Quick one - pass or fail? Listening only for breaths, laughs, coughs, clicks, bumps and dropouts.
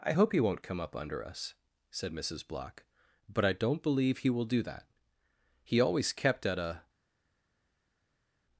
pass